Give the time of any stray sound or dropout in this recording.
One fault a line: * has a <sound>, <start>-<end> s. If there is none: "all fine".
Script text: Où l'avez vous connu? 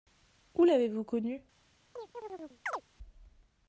* has a chirp, 2.0-2.8 s